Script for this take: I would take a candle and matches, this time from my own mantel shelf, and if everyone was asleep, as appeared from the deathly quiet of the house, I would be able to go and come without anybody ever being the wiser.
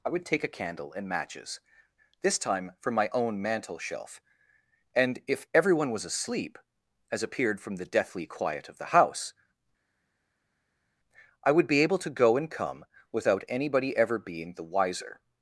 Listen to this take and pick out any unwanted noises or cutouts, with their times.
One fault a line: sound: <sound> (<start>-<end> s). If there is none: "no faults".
no faults